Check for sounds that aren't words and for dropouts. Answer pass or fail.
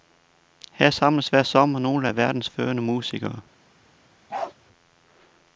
fail